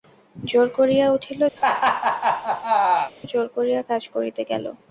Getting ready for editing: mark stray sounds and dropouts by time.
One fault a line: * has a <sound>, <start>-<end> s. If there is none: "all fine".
* has a laugh, 1.6-3.1 s